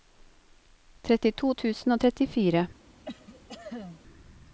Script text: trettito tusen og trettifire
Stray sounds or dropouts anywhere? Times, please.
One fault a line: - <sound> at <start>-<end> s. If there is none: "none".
- cough at 3.0-4.0 s